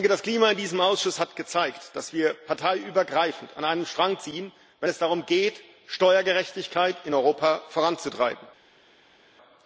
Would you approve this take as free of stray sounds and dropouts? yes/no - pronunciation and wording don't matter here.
yes